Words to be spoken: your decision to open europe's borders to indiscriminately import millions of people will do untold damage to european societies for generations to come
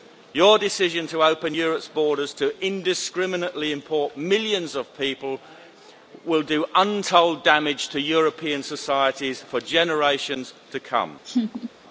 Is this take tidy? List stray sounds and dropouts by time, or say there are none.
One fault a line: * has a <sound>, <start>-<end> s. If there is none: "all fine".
* has a laugh, 11.2-11.7 s